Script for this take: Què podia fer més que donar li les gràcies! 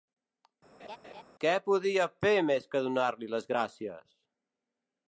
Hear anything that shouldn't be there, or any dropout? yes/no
yes